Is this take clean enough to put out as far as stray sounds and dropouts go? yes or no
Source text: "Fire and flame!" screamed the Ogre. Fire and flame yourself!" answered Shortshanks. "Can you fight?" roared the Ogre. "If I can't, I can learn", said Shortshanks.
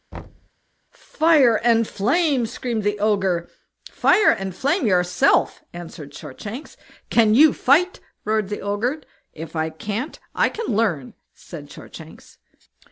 no